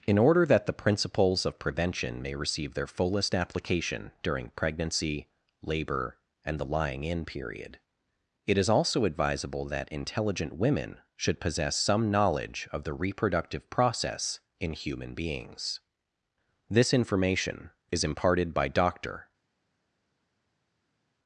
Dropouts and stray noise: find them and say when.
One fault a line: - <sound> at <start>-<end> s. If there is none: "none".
none